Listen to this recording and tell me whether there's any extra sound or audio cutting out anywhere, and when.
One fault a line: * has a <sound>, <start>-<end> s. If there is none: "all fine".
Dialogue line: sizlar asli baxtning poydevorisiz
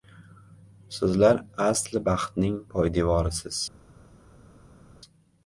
all fine